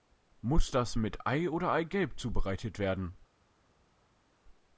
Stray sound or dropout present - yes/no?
no